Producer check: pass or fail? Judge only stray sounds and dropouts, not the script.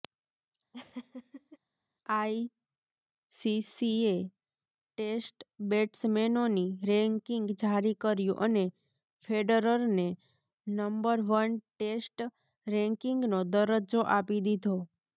fail